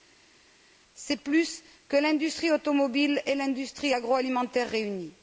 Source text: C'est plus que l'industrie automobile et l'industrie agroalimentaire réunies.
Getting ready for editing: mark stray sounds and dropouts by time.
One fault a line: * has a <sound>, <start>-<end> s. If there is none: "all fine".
all fine